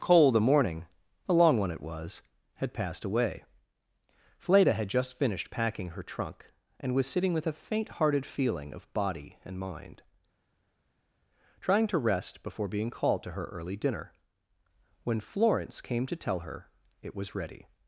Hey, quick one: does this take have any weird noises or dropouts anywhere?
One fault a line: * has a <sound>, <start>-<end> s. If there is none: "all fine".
all fine